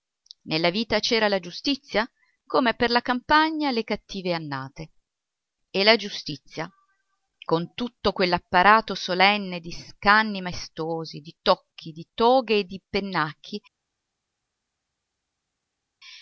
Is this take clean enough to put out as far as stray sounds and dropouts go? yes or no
yes